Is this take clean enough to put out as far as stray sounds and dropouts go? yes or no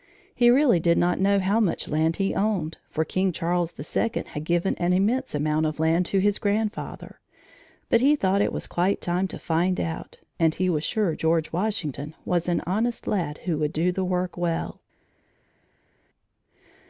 yes